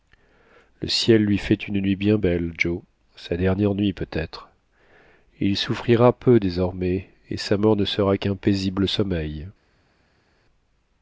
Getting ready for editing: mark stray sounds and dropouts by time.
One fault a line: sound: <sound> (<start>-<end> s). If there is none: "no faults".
no faults